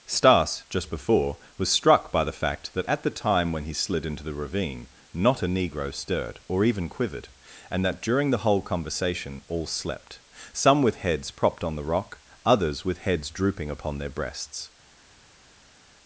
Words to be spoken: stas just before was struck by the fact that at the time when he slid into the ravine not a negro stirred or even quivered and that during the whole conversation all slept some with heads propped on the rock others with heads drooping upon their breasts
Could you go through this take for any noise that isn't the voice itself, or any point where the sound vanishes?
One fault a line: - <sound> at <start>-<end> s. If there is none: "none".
none